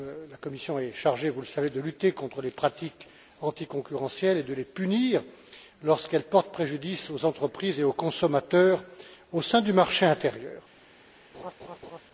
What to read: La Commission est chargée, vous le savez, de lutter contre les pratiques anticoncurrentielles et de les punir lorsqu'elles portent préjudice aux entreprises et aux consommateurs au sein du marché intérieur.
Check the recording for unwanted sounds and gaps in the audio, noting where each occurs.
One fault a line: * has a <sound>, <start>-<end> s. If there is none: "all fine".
* has a laugh, 11.3-12.0 s